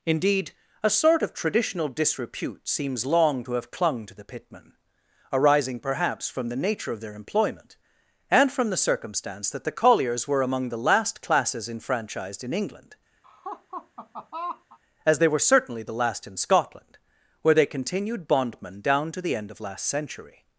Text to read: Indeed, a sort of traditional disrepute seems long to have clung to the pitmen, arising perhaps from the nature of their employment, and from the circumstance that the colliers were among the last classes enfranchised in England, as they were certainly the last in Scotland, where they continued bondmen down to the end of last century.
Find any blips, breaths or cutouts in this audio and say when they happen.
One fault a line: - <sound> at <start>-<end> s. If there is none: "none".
- laugh at 13.2-14.8 s